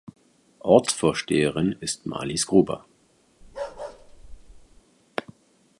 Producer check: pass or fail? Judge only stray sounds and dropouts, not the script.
fail